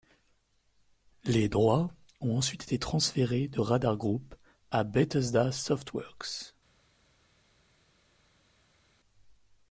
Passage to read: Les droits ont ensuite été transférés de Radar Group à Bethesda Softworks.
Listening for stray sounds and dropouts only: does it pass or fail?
pass